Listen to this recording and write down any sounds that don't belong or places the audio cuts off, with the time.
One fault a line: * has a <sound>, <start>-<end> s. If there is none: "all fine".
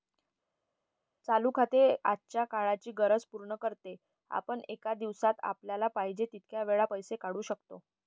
all fine